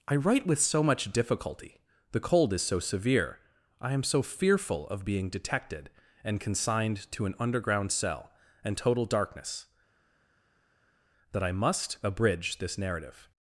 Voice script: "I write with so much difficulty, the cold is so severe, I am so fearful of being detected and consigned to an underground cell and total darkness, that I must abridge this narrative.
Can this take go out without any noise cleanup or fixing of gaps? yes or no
yes